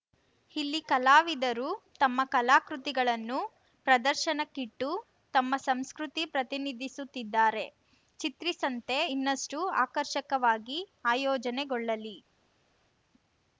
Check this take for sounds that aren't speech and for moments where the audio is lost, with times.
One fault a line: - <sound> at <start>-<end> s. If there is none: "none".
none